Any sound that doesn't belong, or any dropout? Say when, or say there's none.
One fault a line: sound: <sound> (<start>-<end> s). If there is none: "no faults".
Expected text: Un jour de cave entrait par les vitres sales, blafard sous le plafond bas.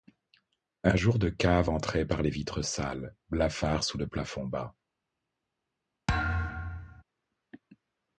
sound: thud (6.1-7.0 s)